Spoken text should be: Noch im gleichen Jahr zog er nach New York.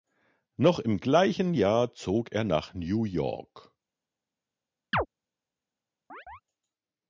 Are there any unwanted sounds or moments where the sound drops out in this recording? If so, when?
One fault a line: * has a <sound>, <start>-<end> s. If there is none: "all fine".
* has a chirp, 4.9-5.1 s
* has a chirp, 6.1-6.4 s